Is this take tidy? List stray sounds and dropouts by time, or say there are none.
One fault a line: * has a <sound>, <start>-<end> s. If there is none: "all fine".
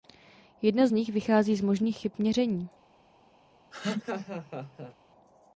* has a laugh, 3.7-4.9 s